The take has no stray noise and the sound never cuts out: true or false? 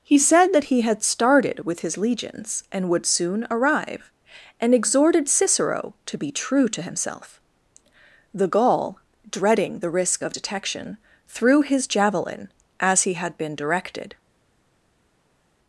true